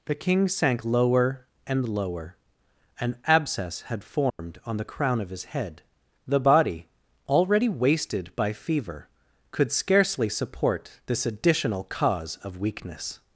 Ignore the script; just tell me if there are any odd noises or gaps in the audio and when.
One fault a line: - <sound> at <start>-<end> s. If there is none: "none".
- dropout at 4.3-4.4 s